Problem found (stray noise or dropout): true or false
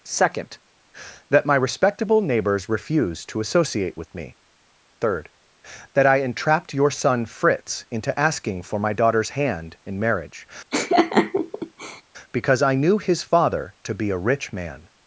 true